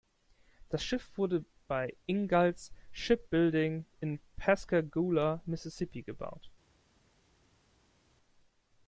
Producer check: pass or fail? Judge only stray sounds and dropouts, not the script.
pass